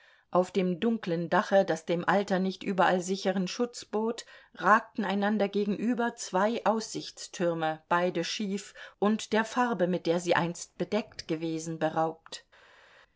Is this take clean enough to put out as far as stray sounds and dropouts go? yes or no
yes